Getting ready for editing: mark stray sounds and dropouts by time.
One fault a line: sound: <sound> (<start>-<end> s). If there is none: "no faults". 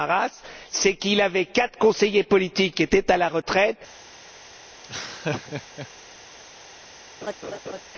sound: laugh (4.8-5.9 s)
sound: laugh (7.2-7.8 s)